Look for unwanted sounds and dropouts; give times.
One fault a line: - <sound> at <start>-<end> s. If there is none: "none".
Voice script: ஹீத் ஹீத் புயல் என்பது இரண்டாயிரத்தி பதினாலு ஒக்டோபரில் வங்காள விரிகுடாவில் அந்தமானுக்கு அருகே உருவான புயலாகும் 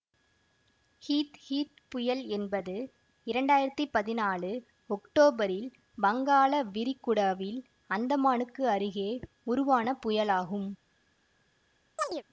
- chirp at 12.0-12.2 s